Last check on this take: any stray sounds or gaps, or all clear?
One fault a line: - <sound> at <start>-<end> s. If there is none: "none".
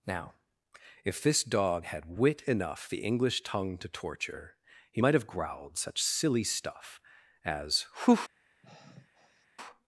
- sigh at 8.6-9.5 s